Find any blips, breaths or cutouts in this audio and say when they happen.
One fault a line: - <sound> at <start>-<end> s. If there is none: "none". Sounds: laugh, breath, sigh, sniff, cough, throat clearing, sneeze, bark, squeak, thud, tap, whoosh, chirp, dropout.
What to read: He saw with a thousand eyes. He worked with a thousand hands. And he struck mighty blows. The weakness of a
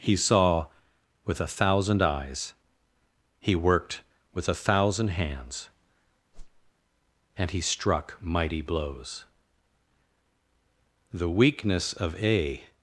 - whoosh at 6.3-6.7 s